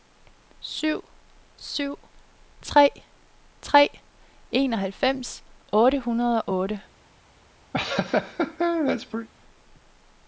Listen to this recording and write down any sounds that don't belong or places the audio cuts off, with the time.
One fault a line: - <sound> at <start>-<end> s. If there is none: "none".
- laugh at 7.7-9.3 s